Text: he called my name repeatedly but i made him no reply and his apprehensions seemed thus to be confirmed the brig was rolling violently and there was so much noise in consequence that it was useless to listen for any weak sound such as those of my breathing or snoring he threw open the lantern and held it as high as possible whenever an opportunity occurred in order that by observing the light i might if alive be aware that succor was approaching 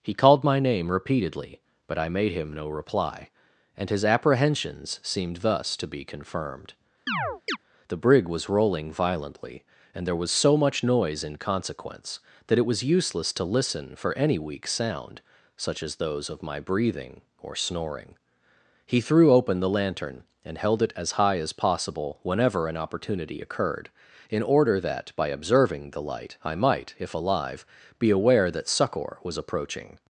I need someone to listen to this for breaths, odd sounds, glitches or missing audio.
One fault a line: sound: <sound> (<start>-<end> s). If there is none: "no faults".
sound: chirp (7.1-7.6 s)